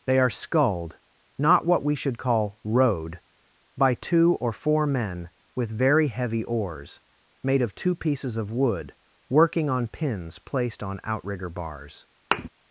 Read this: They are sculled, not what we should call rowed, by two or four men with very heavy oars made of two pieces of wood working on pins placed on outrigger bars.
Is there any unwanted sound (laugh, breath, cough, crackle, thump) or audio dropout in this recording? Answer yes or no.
yes